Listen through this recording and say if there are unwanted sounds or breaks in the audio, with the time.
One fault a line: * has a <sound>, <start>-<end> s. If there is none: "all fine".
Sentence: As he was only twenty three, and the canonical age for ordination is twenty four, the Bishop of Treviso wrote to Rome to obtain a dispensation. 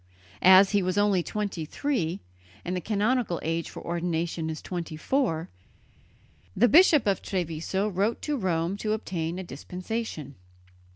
all fine